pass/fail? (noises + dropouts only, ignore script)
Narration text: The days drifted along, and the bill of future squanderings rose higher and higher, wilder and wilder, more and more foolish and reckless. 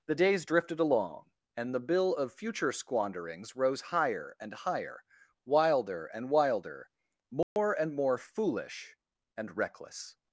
fail